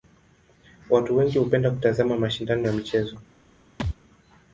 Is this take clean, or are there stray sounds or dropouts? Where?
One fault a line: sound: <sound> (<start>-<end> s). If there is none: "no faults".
sound: thud (3.8-4.0 s)